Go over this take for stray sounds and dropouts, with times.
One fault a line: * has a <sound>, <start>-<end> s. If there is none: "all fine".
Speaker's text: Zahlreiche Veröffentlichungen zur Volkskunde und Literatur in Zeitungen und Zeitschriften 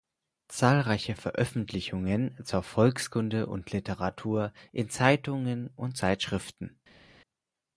all fine